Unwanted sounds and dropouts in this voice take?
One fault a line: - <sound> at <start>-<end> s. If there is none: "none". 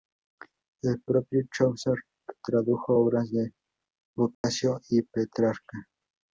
- dropout at 4.3-4.4 s